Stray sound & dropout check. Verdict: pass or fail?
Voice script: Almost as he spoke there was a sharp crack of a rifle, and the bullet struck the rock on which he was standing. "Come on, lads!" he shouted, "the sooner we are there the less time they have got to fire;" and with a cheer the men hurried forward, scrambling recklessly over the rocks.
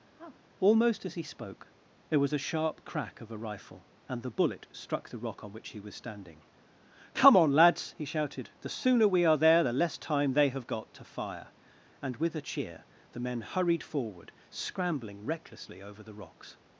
fail